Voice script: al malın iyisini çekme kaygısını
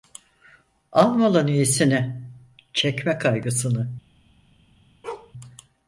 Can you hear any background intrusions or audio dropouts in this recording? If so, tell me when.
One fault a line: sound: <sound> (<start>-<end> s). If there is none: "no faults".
sound: bark (5.0-5.3 s)